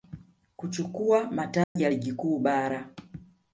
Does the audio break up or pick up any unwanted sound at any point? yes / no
yes